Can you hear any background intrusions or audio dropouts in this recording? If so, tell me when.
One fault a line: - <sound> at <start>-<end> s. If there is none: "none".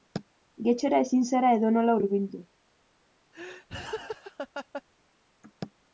- laugh at 3.3-4.8 s